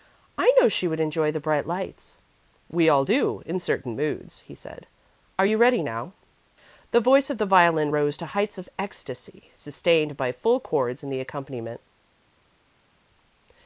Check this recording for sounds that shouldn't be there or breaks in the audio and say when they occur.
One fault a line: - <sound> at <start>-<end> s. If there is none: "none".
none